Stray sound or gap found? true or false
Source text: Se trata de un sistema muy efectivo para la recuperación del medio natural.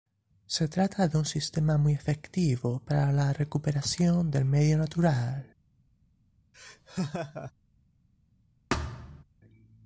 true